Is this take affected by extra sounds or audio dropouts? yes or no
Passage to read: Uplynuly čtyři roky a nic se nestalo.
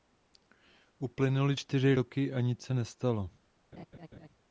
yes